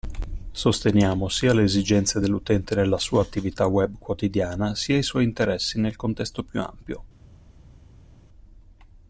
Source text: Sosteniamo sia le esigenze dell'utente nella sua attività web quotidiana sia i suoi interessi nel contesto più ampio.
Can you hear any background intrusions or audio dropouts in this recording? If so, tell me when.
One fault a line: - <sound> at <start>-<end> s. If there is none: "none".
none